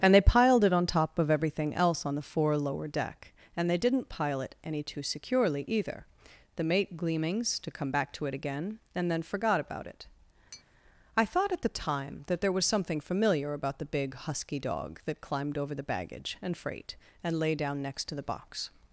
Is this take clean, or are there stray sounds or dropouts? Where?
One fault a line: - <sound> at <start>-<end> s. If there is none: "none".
- tap at 10.5-10.6 s